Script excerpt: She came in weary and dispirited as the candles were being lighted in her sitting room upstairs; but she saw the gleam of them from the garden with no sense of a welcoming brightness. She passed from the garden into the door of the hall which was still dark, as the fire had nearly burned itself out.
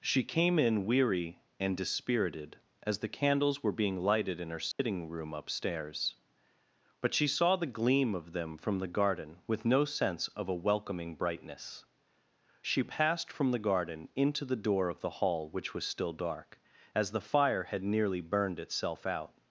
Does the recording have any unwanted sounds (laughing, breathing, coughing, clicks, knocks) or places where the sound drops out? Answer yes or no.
yes